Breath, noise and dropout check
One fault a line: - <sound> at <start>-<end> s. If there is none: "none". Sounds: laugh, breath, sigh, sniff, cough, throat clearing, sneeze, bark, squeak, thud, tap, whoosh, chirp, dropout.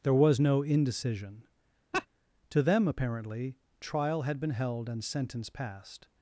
- laugh at 1.9-2.1 s